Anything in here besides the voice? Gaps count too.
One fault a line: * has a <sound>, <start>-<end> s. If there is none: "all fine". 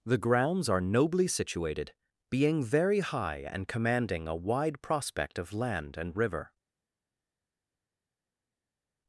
all fine